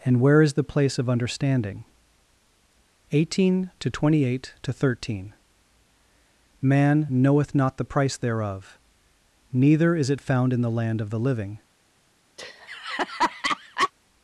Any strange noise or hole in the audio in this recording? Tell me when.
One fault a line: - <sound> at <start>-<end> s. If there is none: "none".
- laugh at 12.4-13.9 s